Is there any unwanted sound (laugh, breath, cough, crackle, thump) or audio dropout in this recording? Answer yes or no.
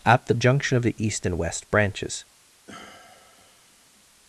yes